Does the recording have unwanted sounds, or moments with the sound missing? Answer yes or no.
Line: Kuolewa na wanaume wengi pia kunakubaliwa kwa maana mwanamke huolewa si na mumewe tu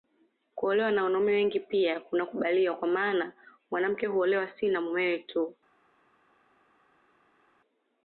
no